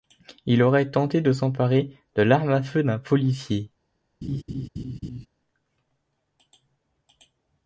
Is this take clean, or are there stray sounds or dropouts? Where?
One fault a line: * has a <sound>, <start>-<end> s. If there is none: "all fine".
* has a laugh, 4.2-5.3 s